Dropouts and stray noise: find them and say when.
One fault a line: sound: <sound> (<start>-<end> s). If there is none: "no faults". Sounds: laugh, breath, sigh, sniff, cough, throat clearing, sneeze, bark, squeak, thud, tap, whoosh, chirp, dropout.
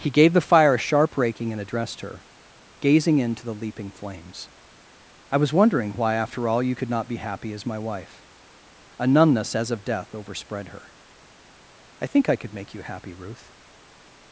no faults